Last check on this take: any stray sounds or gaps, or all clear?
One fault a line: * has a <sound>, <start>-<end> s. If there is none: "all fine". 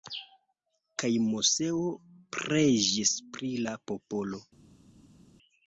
all fine